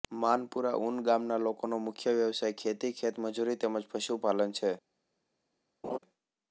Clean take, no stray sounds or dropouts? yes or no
no